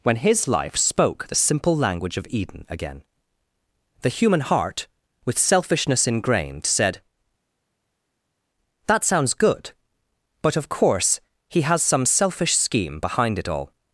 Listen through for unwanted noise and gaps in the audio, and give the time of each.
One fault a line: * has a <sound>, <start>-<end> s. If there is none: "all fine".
all fine